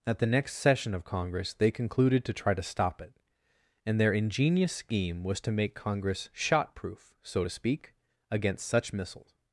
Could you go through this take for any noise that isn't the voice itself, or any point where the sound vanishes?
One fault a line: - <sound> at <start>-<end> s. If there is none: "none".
none